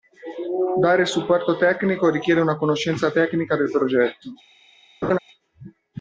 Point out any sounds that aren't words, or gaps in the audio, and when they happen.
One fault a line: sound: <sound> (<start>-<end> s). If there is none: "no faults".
sound: laugh (5.0-5.2 s)